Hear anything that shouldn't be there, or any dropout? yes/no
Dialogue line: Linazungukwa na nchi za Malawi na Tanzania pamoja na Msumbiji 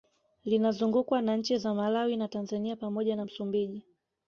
no